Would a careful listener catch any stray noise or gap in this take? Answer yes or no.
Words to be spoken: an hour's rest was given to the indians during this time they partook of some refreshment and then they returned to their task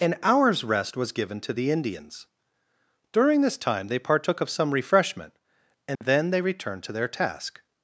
yes